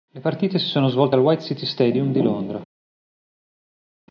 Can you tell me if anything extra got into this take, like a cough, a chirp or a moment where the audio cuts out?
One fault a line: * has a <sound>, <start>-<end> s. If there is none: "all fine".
all fine